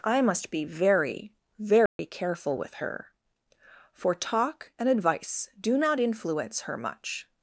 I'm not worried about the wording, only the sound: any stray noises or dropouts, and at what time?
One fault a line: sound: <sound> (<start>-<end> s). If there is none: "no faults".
sound: dropout (1.9-2.0 s)